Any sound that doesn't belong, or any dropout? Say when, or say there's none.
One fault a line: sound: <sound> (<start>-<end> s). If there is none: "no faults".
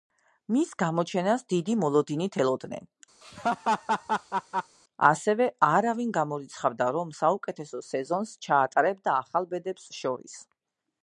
sound: laugh (3.2-4.8 s)